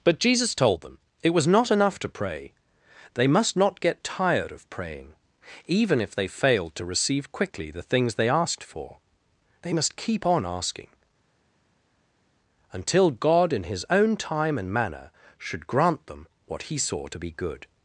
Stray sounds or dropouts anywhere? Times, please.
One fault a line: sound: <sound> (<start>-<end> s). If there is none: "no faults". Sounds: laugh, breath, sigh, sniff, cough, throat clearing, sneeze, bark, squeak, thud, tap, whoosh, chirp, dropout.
no faults